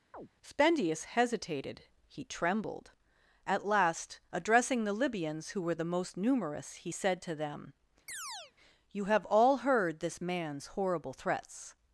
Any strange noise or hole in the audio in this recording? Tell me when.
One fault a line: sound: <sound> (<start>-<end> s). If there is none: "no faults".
sound: chirp (0.1-0.3 s)
sound: chirp (8.1-8.5 s)